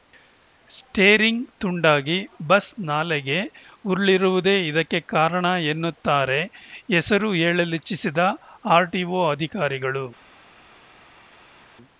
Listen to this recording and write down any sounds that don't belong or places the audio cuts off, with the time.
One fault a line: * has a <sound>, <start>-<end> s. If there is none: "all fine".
all fine